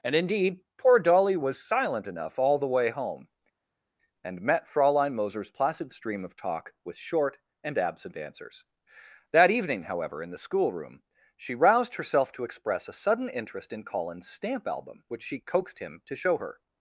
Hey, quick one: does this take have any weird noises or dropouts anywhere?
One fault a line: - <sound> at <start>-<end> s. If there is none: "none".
none